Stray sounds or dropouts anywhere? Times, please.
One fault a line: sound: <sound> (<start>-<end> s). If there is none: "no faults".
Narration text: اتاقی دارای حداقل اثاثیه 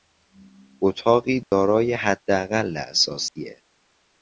sound: dropout (1.4-1.5 s)
sound: dropout (3.3-3.4 s)